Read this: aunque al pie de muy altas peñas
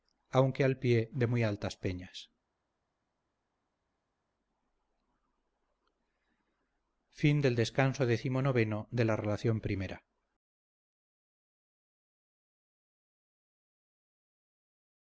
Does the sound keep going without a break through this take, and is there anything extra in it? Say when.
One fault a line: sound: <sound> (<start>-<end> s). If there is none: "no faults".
no faults